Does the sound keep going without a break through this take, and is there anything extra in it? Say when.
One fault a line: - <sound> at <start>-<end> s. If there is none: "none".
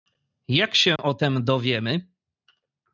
- dropout at 1.0-1.0 s